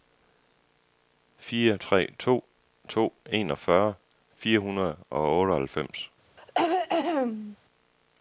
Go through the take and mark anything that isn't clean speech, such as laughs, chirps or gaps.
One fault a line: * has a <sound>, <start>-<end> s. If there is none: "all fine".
* has a throat clearing, 6.4-7.6 s